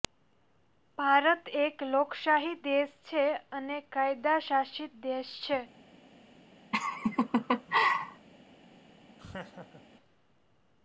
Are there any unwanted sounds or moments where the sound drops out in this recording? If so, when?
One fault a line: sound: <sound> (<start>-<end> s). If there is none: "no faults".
sound: laugh (6.7-8.3 s)
sound: laugh (9.2-9.8 s)